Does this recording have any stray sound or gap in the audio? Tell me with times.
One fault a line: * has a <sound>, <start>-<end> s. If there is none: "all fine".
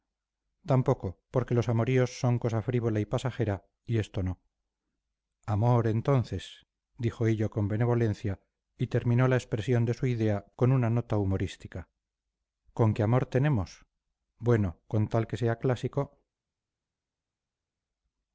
all fine